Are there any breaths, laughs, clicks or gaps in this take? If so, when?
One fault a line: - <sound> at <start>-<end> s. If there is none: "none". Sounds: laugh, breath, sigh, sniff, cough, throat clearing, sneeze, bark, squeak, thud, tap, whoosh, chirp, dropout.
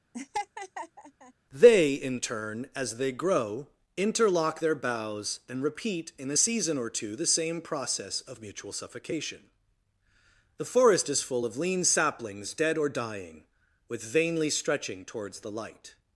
- laugh at 0.1-1.3 s